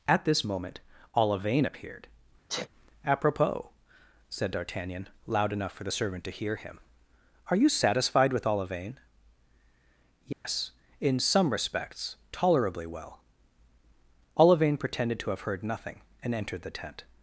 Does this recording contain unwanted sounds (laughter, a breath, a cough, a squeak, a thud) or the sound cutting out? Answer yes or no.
yes